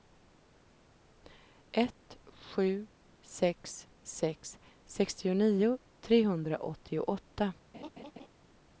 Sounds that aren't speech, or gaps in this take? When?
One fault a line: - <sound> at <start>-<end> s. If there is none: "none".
- laugh at 7.7-8.3 s